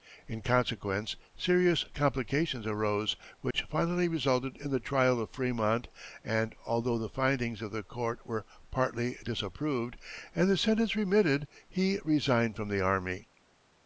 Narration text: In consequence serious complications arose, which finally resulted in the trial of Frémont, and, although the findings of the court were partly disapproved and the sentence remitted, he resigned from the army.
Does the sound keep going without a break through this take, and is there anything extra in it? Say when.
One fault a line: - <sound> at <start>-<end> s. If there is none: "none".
- dropout at 3.5-3.5 s